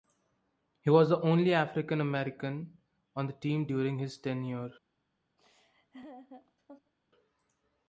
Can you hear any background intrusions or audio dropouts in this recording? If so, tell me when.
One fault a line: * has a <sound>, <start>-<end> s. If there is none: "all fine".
* has a laugh, 5.4-6.9 s